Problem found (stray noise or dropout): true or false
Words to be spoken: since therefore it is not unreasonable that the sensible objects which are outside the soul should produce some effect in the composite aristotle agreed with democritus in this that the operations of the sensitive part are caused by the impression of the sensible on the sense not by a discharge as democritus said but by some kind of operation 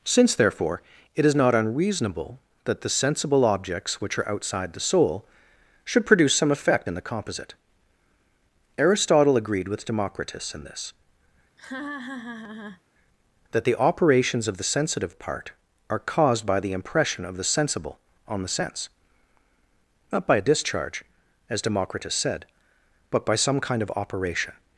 true